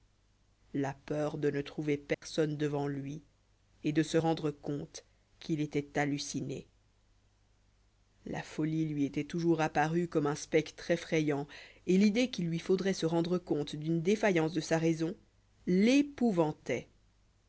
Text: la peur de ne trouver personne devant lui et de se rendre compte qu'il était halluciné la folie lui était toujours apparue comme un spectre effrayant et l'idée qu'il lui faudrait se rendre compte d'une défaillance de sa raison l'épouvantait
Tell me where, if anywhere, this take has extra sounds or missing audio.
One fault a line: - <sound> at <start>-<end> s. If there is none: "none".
- dropout at 2.1-2.2 s